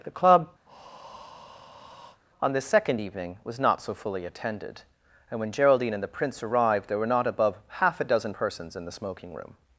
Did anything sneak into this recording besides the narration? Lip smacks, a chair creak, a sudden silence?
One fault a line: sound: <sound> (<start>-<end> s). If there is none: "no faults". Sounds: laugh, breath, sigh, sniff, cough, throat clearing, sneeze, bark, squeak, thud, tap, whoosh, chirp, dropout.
sound: breath (0.6-2.2 s)